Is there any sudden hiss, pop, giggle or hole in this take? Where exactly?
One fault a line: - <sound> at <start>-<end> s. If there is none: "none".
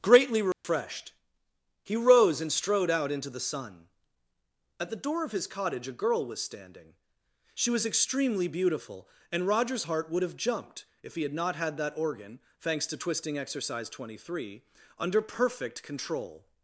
- dropout at 0.5-0.6 s